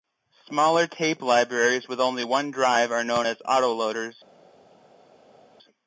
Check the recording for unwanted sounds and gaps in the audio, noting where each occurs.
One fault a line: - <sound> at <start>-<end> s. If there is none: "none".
none